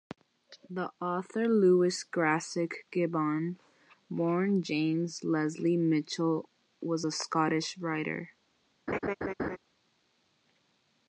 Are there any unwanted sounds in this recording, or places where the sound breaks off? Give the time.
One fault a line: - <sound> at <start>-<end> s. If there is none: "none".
- laugh at 8.9-9.6 s